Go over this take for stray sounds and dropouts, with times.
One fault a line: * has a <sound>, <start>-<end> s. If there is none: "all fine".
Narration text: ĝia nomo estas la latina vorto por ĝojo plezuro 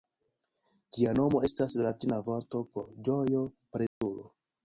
* has a dropout, 3.9-4.0 s